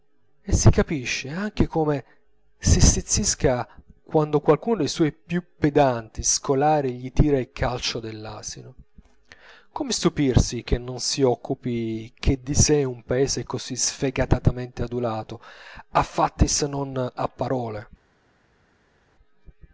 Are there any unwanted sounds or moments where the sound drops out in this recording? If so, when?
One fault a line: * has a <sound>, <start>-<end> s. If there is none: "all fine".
all fine